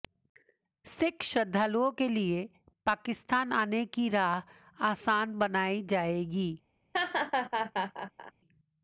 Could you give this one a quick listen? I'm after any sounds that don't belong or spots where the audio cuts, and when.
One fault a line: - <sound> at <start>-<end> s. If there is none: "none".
- laugh at 6.9-8.3 s